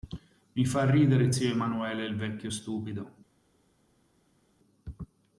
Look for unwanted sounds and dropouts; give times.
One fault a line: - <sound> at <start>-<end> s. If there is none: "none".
none